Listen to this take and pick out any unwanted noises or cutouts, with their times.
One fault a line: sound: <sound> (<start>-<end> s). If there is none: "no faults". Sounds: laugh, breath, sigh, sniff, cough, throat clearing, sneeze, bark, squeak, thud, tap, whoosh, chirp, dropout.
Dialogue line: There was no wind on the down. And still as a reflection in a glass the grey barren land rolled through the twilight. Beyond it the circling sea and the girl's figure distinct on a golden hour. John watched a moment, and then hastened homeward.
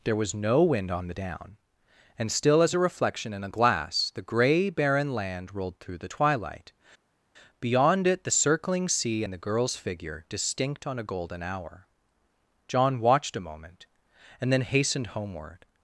no faults